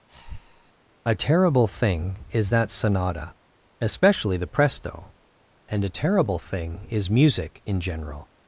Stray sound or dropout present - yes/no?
yes